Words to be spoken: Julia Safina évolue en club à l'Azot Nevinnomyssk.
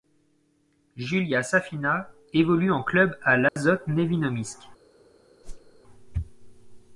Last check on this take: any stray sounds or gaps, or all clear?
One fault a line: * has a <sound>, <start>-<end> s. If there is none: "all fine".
* has a dropout, 3.5-3.6 s
* has a whoosh, 5.4-5.8 s